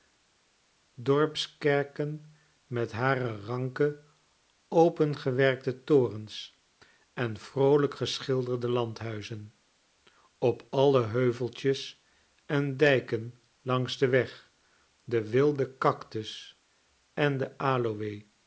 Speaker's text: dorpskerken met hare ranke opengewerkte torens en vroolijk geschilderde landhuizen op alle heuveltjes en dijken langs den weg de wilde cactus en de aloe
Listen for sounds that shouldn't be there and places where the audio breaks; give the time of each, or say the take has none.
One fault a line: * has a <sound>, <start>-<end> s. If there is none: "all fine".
all fine